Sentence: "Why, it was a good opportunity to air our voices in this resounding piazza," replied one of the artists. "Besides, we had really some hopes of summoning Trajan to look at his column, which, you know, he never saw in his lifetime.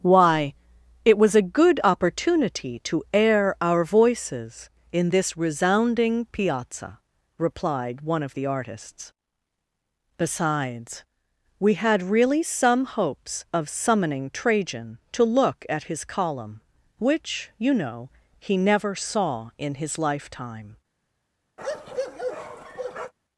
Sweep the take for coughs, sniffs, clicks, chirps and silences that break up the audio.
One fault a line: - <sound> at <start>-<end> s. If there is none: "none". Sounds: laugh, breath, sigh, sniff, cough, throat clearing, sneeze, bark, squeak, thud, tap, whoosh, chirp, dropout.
- bark at 21.6-23.1 s